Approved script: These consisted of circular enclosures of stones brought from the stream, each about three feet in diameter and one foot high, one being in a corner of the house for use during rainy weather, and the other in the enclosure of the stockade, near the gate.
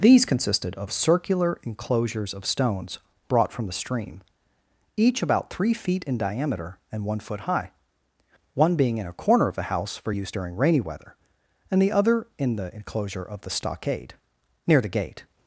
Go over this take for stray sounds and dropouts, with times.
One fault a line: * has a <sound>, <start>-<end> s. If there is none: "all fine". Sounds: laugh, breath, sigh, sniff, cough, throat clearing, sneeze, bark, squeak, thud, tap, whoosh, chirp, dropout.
all fine